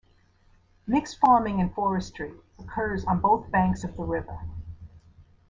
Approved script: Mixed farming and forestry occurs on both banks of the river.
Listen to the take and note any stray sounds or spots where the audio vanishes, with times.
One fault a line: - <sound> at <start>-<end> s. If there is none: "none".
none